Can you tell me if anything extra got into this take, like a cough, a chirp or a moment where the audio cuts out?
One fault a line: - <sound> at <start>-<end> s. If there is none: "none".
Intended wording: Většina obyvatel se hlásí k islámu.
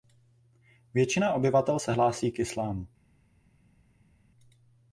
none